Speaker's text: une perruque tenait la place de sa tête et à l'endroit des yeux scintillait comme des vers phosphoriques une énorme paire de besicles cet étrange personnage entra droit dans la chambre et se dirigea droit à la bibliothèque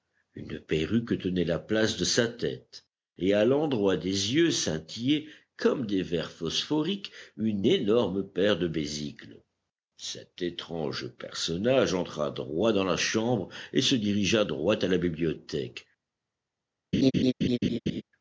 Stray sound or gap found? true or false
true